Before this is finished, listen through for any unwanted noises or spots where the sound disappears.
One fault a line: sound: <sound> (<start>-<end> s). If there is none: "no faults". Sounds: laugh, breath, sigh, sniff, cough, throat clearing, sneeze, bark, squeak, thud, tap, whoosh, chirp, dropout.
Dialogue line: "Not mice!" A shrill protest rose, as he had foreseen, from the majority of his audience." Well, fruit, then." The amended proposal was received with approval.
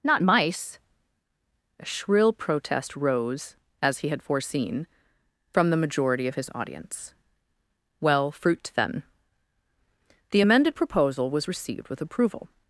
no faults